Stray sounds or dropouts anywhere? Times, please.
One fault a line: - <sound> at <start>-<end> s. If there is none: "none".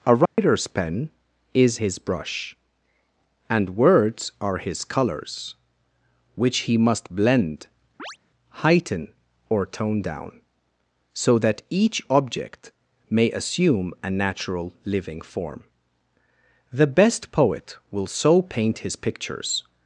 - dropout at 0.3-0.4 s
- chirp at 8.0-8.2 s